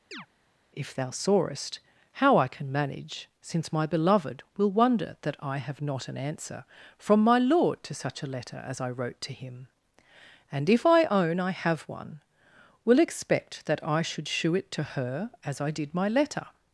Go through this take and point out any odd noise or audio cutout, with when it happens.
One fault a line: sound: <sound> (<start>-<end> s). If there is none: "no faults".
sound: chirp (0.1-0.3 s)